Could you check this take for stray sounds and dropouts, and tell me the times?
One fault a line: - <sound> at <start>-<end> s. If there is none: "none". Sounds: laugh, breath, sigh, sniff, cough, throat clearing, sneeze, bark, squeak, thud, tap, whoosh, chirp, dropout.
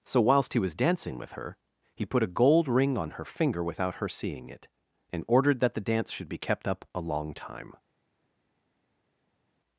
none